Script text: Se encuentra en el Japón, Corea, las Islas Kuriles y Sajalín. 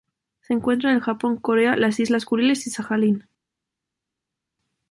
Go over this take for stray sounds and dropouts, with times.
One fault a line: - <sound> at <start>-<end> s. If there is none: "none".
none